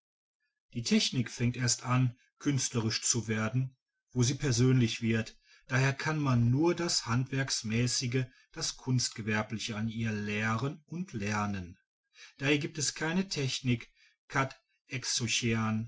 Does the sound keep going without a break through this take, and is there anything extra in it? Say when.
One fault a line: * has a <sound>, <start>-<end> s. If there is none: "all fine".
all fine